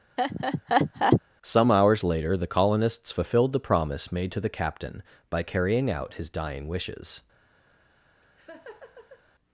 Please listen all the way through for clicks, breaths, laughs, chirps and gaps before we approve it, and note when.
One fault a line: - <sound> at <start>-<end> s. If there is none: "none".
- laugh at 0.2-1.2 s
- laugh at 8.2-9.2 s